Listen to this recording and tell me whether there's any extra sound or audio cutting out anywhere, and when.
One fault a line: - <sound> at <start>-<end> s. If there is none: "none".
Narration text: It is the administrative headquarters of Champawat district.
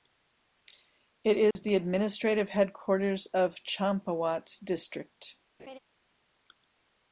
- dropout at 1.5-1.6 s
- laugh at 5.6-5.8 s